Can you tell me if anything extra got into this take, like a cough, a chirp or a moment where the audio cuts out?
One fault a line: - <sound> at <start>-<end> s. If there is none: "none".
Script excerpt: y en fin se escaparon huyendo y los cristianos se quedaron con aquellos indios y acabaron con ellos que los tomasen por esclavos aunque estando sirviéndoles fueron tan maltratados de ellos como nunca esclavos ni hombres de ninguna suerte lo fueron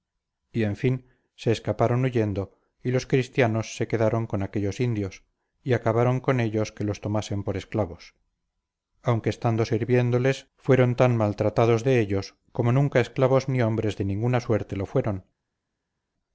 none